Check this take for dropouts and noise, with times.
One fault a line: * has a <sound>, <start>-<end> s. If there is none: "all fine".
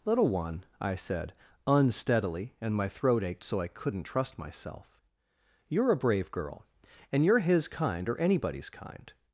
all fine